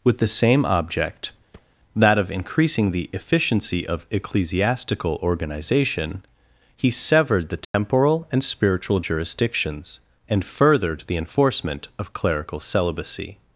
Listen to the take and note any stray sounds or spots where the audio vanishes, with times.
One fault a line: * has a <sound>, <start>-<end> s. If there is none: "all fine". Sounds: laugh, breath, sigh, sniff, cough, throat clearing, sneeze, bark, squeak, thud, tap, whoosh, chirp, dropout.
* has a thud, 1.5-1.8 s
* has a dropout, 7.6-7.7 s